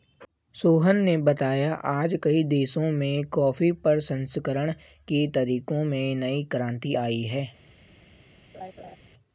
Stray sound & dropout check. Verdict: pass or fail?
fail